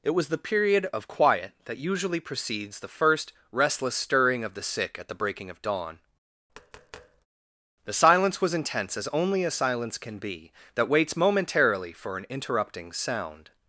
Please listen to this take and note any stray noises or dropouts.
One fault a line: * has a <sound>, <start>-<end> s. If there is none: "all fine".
* has a tap, 6.5-7.3 s